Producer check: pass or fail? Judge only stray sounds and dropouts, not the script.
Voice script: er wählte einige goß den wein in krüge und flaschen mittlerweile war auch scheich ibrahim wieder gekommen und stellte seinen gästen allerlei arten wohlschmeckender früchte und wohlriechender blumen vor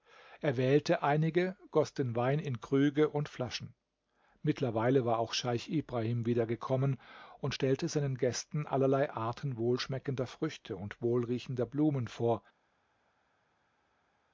pass